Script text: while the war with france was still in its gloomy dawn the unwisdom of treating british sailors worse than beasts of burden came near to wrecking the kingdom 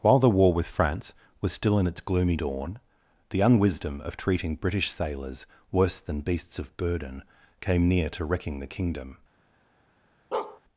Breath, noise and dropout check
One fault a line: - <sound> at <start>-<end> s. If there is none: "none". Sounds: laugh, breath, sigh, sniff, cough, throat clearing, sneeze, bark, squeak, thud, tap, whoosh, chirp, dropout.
- bark at 10.3-10.6 s